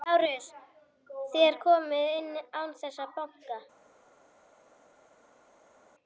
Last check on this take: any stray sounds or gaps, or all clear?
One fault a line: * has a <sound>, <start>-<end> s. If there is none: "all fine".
all fine